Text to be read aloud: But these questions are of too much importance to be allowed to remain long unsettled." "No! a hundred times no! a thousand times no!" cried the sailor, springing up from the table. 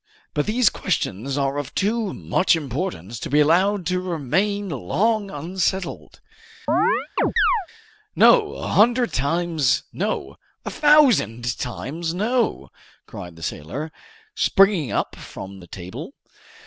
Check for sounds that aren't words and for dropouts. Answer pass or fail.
fail